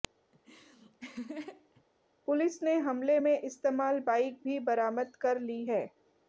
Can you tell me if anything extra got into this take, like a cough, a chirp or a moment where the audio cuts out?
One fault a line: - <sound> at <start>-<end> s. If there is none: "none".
- laugh at 0.3-1.8 s